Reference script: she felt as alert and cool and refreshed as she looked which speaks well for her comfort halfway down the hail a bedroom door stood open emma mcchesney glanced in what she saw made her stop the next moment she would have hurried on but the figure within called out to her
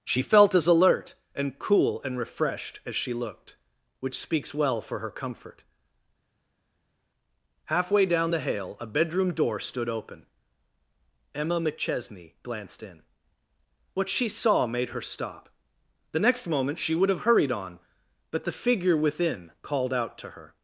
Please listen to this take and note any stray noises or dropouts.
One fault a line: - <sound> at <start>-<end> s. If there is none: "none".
none